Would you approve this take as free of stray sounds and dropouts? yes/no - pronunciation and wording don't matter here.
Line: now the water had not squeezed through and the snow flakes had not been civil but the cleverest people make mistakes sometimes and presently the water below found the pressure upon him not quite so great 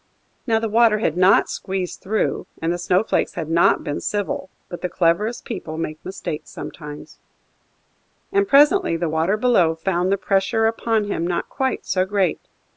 yes